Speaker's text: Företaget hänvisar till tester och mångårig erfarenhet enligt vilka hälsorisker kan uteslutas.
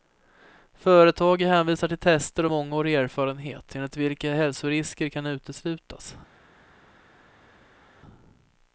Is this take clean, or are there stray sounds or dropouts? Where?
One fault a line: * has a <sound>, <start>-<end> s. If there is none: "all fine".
all fine